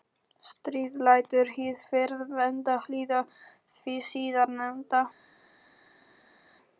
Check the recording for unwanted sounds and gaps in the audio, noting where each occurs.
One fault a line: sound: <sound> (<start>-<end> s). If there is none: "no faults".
no faults